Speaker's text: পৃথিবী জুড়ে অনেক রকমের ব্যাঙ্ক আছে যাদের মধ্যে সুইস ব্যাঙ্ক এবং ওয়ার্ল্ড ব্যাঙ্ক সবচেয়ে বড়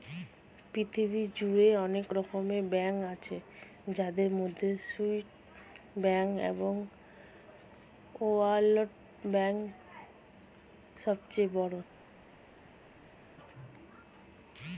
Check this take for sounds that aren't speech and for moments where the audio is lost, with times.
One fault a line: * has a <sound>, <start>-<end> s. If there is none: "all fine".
all fine